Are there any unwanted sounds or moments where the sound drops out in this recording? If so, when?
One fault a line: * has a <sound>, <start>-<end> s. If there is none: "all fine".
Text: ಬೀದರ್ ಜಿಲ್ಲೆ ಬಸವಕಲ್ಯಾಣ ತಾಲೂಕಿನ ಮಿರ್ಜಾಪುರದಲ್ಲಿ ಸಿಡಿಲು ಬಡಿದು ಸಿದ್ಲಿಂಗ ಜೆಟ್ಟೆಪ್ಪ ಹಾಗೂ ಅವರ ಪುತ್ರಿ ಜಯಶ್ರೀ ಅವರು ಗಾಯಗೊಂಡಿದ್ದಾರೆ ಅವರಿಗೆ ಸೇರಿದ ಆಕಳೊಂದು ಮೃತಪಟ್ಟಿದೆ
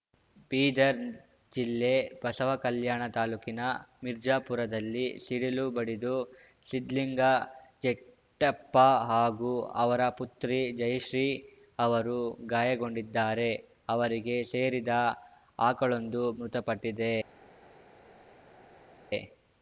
all fine